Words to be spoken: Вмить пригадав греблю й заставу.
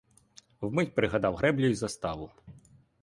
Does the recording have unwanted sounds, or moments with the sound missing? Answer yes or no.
no